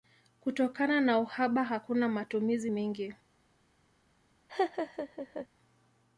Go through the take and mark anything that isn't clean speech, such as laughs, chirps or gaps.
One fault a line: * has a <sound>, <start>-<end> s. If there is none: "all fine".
* has a laugh, 4.5-5.5 s